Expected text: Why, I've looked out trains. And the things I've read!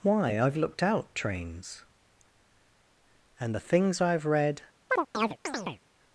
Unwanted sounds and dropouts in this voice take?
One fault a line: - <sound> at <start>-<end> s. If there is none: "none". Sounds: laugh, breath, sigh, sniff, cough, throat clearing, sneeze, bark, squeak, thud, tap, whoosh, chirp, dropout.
- chirp at 4.9-5.8 s